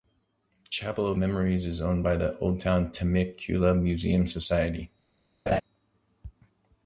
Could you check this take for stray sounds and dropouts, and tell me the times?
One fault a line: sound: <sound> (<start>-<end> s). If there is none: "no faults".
sound: laugh (5.5-5.6 s)